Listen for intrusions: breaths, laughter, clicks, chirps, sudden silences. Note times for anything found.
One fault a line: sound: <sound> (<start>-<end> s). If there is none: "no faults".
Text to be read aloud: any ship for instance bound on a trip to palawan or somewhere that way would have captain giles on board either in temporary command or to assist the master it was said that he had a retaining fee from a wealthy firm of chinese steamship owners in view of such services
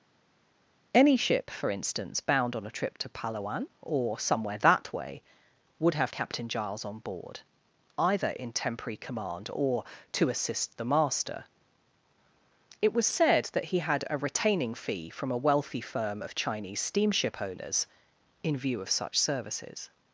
no faults